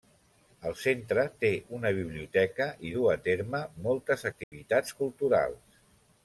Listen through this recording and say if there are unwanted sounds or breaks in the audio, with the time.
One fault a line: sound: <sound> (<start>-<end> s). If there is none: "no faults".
sound: dropout (4.4-4.5 s)